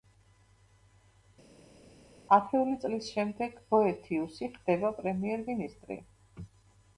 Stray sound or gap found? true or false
false